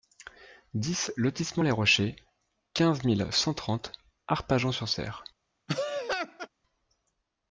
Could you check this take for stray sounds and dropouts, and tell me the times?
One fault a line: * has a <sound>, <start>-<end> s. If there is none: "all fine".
* has a laugh, 5.7-6.5 s